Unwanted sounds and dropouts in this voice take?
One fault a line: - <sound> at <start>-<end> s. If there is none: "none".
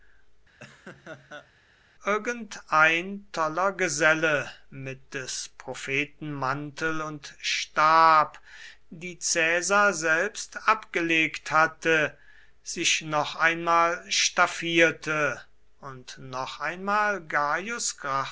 - laugh at 0.6-1.5 s